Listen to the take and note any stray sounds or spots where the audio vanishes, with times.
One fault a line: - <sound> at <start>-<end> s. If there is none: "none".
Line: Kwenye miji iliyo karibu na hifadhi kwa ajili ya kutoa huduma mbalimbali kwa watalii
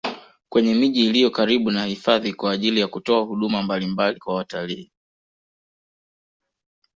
none